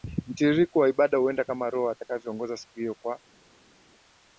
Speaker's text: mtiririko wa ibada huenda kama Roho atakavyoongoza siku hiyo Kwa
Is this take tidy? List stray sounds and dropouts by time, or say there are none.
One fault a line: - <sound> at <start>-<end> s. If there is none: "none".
none